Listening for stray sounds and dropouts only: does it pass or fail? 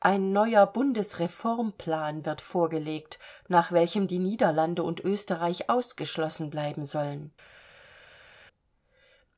pass